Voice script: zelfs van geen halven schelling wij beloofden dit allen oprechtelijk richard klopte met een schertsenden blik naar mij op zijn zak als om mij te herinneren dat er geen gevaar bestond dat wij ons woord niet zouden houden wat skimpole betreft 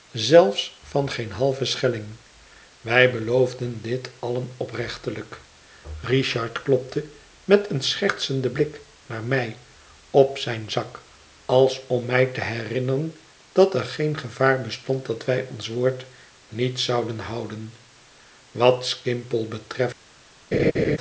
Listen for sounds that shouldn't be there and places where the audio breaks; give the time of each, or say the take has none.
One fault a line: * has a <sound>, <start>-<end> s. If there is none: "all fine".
* has a laugh, 20.5-21.0 s